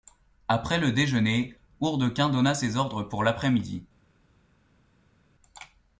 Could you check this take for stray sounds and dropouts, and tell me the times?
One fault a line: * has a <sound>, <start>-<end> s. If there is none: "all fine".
all fine